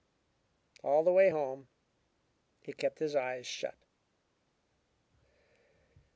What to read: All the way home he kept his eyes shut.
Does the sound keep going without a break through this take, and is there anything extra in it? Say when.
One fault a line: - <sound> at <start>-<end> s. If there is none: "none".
none